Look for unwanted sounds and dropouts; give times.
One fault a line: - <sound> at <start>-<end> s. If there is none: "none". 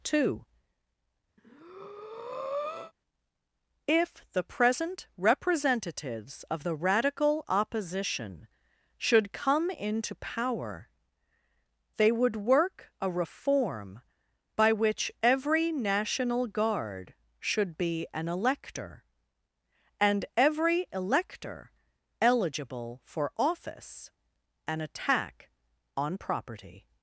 - breath at 1.4-2.9 s